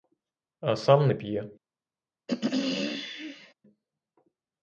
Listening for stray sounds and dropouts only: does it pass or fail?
fail